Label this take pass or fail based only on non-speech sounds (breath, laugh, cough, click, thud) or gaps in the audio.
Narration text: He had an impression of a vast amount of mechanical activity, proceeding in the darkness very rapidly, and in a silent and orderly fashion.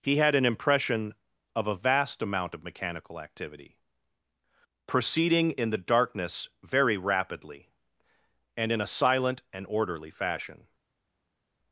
pass